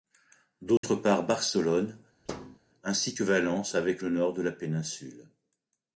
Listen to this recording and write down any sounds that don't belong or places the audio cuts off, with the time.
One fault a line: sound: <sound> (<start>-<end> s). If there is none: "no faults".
sound: dropout (0.8-0.8 s)
sound: thud (2.3-2.6 s)